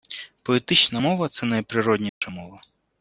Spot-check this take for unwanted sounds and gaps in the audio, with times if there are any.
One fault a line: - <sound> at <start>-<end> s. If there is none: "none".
- dropout at 2.1-2.2 s